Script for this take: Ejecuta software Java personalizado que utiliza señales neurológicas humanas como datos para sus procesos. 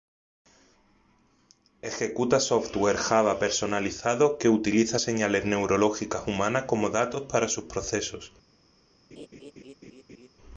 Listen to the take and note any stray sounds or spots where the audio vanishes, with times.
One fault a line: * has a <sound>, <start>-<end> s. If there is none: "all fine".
* has a laugh, 9.1-10.3 s